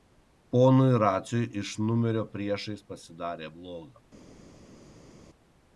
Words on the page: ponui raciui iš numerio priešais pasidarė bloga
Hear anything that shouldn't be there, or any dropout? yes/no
no